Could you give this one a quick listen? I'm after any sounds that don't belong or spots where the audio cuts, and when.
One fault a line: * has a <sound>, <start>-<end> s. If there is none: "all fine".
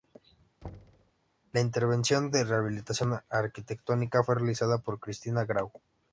* has a thud, 0.6-1.1 s